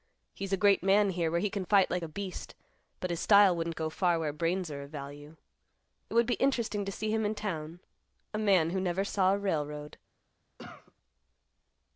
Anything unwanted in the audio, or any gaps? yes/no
yes